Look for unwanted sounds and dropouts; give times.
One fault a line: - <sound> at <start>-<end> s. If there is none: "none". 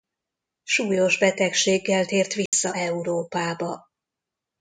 - dropout at 2.5-2.5 s